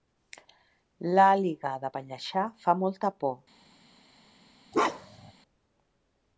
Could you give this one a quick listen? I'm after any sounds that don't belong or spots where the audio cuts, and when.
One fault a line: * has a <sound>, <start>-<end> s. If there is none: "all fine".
* has a bark, 4.7-5.3 s